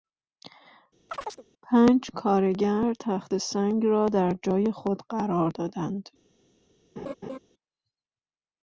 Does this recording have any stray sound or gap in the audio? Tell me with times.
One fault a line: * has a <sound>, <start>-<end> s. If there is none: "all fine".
* has a chirp, 1.1-1.5 s
* has a laugh, 7.0-7.4 s